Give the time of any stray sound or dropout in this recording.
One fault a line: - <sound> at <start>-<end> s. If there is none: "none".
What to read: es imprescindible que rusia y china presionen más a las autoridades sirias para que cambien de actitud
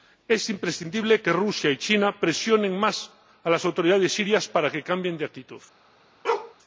- bark at 6.2-6.5 s